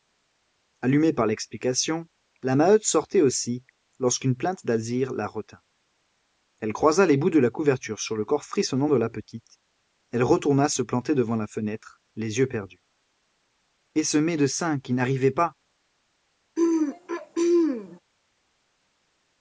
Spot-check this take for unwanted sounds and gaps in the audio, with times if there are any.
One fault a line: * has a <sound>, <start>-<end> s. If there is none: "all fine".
* has a throat clearing, 16.6-18.0 s